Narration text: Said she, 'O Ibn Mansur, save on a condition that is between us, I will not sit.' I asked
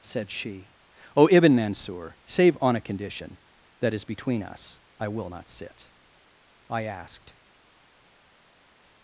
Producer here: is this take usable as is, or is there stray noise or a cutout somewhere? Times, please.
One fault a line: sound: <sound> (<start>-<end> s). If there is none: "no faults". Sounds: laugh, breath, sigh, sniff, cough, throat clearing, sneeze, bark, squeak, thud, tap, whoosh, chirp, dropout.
no faults